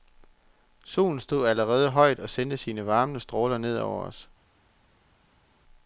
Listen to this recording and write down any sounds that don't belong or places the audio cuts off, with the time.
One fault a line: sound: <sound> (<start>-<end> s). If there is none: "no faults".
no faults